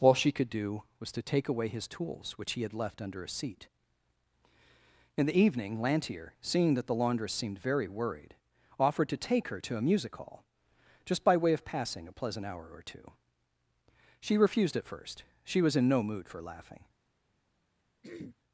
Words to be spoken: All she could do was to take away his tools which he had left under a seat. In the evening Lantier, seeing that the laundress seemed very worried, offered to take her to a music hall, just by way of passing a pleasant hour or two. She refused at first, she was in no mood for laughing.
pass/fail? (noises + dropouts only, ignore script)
fail